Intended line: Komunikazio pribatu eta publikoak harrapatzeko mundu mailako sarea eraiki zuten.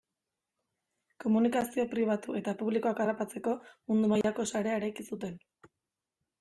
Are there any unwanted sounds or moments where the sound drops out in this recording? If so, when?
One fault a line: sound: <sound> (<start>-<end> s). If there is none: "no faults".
sound: dropout (4.2-4.2 s)